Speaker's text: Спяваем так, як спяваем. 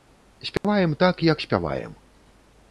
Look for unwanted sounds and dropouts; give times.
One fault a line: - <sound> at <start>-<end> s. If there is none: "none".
- dropout at 0.6-0.6 s